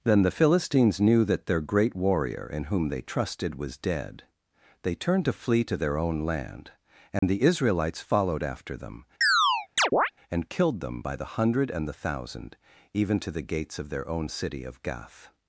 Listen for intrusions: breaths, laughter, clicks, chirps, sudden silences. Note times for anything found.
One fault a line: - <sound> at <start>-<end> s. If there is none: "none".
- dropout at 7.2-7.2 s
- chirp at 9.2-10.1 s